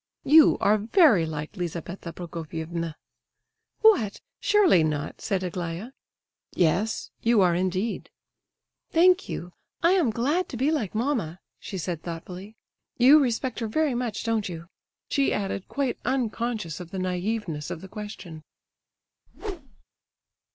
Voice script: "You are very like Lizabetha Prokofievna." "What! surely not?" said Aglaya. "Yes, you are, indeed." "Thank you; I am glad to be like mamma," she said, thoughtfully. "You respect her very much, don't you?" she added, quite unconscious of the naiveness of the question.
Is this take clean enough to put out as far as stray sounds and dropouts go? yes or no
no